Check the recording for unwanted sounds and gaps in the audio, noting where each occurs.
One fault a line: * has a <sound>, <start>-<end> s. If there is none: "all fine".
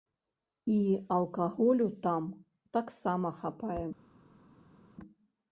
all fine